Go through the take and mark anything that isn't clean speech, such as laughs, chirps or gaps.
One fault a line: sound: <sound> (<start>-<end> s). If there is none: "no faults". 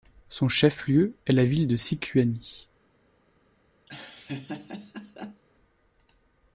sound: laugh (3.9-5.4 s)